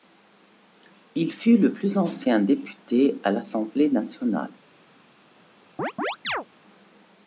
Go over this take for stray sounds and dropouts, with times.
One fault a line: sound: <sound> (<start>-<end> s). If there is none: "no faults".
sound: chirp (5.8-6.5 s)